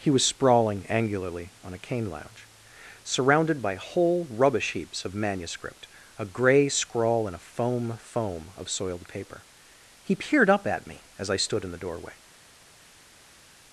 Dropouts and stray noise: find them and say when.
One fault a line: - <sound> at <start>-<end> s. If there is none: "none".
none